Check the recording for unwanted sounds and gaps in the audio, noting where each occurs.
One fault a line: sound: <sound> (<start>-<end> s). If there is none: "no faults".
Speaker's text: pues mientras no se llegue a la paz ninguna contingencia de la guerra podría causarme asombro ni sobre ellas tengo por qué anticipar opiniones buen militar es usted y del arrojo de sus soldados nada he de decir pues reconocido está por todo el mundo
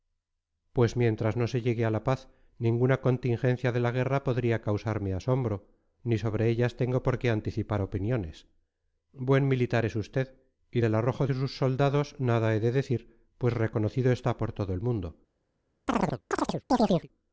sound: chirp (15.9-17.1 s)